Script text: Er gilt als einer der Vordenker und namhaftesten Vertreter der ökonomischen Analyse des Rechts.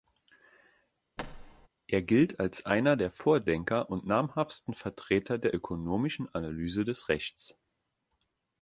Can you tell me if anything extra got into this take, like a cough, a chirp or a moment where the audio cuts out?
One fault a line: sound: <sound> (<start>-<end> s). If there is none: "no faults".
sound: thud (1.2-1.7 s)